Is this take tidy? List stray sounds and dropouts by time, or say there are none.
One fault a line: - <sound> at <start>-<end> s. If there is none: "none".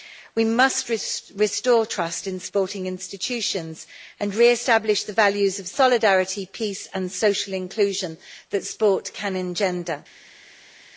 none